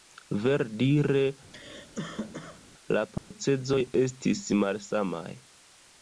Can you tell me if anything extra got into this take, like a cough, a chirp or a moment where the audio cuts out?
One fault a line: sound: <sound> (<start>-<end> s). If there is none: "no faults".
sound: cough (1.5-2.6 s)
sound: dropout (3.2-3.3 s)